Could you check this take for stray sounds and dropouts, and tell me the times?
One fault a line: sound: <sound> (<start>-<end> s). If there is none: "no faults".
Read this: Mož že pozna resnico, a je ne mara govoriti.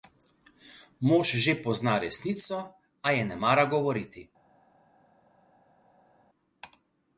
no faults